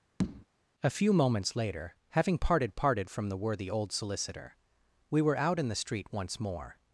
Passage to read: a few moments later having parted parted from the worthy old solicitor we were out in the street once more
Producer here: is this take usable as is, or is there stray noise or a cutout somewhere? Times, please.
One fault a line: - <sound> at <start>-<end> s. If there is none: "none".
- tap at 0.2-0.5 s